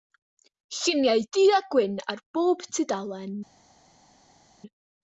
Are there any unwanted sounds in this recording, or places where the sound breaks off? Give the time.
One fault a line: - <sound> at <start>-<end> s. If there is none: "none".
none